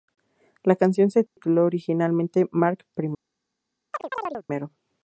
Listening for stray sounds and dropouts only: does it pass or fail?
fail